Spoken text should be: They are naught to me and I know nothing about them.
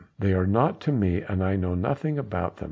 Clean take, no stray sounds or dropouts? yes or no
yes